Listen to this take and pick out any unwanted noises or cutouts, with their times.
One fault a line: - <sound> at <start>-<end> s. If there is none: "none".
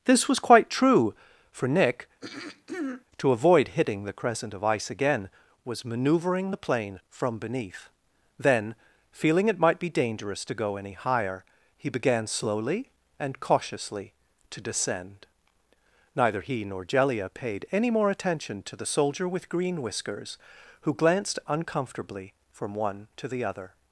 - throat clearing at 2.2-3.0 s